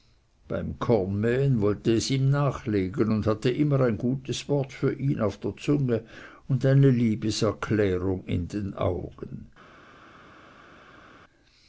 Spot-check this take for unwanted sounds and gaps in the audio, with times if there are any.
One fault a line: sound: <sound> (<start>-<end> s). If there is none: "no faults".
no faults